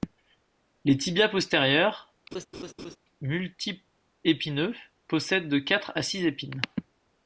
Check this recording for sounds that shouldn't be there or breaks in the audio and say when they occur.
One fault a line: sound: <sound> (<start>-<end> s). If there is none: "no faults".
sound: laugh (2.3-3.0 s)